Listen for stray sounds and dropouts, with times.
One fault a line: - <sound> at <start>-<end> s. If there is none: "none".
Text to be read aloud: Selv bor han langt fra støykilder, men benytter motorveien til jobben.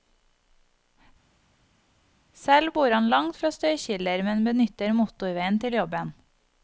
none